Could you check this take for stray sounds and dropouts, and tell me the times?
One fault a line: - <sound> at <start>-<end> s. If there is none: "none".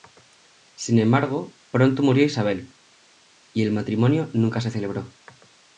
none